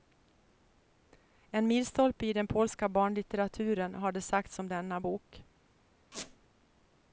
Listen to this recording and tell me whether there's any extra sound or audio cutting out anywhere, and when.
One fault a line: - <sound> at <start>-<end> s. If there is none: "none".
- squeak at 6.1-6.4 s